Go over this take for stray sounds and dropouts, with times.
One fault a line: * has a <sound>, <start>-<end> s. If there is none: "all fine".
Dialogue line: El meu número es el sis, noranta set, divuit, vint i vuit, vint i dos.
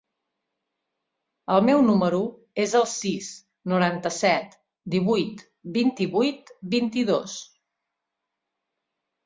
all fine